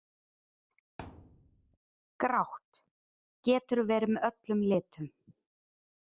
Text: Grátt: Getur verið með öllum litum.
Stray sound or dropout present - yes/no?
yes